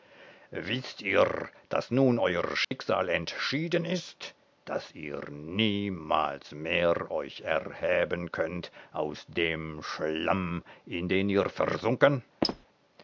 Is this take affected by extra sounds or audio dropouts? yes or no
yes